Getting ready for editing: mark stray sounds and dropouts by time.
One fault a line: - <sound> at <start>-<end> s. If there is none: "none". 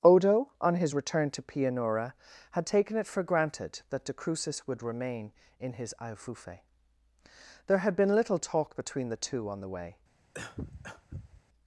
- cough at 10.3-11.4 s